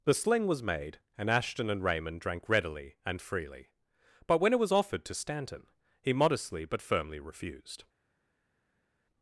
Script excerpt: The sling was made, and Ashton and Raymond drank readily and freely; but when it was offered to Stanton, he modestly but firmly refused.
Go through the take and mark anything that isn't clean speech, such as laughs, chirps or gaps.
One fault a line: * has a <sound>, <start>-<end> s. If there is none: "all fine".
all fine